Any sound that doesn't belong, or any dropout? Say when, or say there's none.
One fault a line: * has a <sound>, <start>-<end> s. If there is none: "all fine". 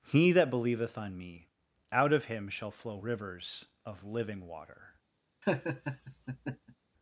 * has a laugh, 5.4-6.7 s